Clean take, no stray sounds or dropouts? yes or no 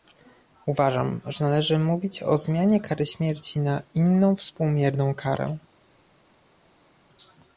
yes